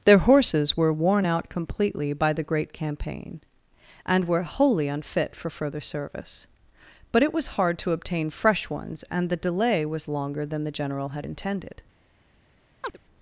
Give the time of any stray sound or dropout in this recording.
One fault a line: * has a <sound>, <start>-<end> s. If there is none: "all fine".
* has a chirp, 12.8-13.0 s